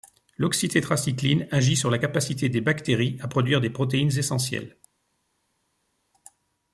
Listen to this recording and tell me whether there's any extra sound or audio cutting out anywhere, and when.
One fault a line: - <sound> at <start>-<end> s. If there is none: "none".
none